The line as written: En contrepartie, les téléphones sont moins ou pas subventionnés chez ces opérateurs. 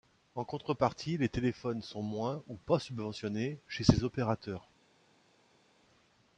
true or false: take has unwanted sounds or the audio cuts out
false